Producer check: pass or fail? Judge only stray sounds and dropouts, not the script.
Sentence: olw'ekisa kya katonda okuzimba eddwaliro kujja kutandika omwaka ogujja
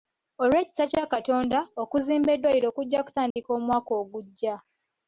fail